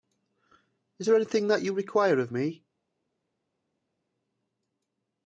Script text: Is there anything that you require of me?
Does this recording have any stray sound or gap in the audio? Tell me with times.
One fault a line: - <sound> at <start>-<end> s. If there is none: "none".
none